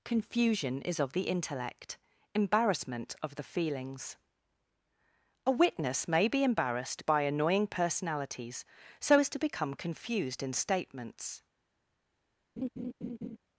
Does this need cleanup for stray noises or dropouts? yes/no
yes